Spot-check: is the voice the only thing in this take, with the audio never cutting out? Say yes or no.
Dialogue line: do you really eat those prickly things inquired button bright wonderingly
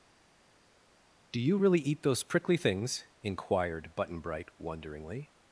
yes